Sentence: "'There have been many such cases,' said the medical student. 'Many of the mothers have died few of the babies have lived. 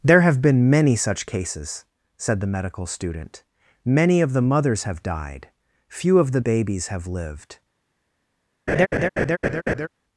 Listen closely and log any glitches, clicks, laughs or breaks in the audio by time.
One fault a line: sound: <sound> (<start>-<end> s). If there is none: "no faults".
sound: laugh (8.7-9.9 s)